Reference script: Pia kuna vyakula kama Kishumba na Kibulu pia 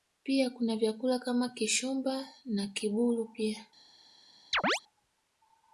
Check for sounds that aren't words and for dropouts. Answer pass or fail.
fail